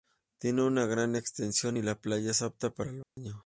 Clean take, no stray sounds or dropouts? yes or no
no